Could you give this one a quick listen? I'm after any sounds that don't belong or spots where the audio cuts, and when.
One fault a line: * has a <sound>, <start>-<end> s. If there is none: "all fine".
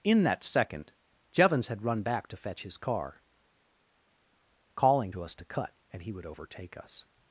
all fine